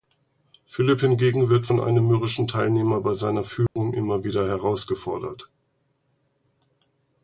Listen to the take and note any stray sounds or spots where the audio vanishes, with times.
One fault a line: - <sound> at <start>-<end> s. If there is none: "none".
- dropout at 3.7-3.8 s